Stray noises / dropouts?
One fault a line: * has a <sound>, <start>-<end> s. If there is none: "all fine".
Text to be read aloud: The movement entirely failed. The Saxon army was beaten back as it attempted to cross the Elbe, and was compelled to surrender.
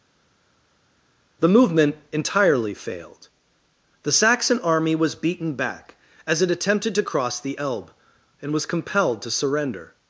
all fine